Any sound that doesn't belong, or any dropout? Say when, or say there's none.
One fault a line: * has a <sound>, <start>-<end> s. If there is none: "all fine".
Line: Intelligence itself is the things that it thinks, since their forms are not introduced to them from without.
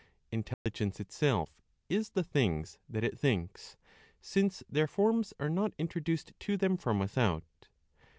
* has a dropout, 0.5-0.7 s